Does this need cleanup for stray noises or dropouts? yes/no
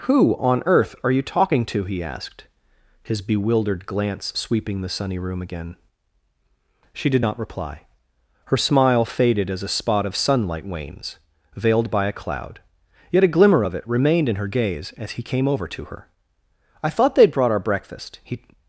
no